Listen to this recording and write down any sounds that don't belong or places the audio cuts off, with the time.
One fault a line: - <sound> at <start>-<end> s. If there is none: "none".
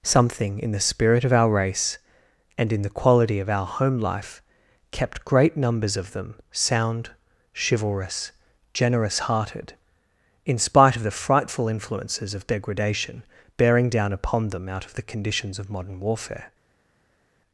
none